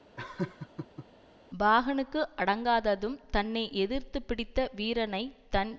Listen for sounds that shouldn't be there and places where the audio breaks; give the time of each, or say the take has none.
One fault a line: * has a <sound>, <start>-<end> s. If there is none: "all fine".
* has a laugh, 0.2-1.1 s